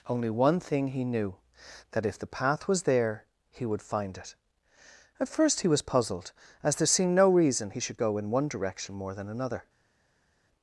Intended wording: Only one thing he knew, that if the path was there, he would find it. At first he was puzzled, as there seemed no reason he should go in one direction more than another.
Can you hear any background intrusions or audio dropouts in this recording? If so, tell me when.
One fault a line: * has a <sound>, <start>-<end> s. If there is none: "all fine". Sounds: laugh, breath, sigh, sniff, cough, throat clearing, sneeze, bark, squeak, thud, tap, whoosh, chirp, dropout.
all fine